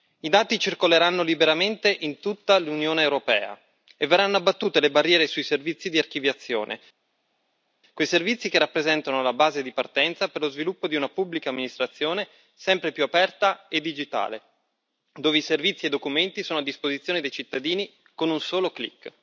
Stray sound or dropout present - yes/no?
no